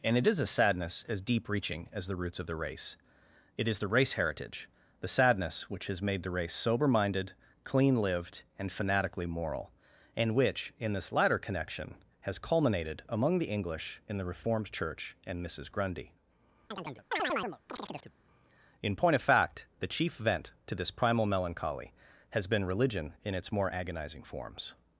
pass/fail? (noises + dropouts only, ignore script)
fail